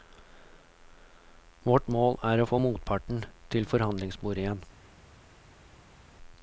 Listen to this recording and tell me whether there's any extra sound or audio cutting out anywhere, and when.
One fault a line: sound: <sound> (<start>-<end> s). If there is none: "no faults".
no faults